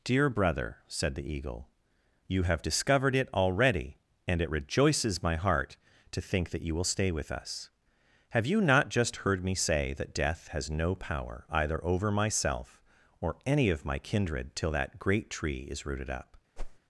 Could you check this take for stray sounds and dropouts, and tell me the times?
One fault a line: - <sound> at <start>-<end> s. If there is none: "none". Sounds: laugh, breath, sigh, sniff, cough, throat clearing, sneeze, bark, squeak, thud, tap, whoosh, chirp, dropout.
- whoosh at 16.6-16.8 s